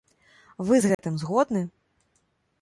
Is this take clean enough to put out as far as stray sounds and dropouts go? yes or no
no